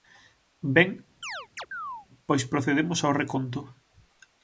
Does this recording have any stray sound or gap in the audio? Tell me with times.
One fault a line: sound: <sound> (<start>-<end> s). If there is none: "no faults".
sound: chirp (1.2-2.1 s)